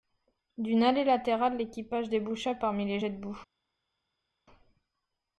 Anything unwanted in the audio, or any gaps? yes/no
no